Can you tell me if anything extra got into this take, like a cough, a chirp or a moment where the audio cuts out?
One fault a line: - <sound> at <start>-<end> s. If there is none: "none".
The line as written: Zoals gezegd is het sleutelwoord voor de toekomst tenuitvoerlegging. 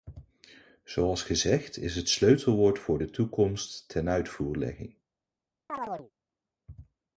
- chirp at 5.7-6.1 s